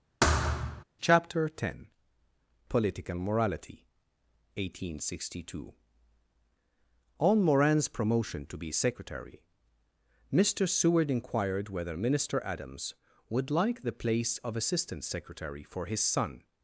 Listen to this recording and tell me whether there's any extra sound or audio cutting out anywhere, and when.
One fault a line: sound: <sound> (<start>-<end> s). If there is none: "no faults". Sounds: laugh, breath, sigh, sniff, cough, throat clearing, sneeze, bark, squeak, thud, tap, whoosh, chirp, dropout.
sound: thud (0.2-0.8 s)